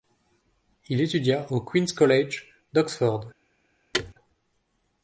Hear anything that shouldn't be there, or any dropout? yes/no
yes